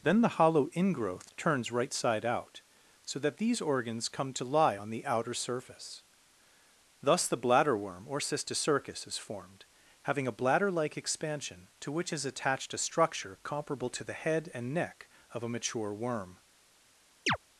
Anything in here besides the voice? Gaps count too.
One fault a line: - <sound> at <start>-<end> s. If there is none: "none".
- chirp at 17.3-17.4 s